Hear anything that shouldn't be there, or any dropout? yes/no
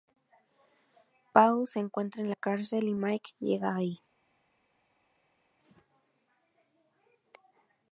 no